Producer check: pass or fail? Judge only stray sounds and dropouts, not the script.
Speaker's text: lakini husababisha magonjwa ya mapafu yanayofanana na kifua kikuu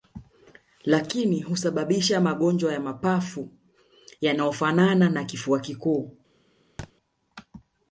fail